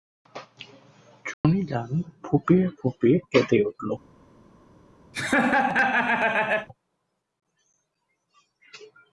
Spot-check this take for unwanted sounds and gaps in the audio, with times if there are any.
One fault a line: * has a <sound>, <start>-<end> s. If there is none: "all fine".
* has a dropout, 1.3-1.4 s
* has a laugh, 5.1-6.7 s